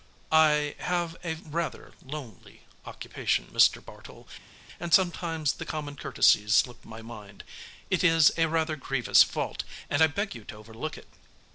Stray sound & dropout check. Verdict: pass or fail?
pass